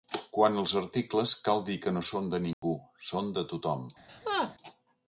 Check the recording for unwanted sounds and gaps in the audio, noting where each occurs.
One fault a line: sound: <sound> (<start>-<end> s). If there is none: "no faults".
sound: dropout (2.5-2.6 s)
sound: laugh (4.1-4.6 s)